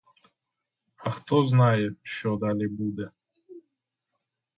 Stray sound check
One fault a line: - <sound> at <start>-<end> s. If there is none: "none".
none